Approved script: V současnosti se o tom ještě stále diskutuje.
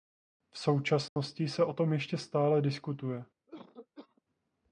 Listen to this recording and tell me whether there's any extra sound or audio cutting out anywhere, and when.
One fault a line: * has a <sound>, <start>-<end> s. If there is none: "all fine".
* has a dropout, 1.1-1.2 s
* has a cough, 3.5-4.2 s